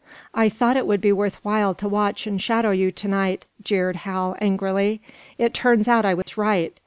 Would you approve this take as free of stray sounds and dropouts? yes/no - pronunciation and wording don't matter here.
no